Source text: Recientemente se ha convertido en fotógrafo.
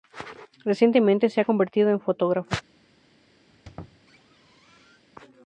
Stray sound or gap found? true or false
true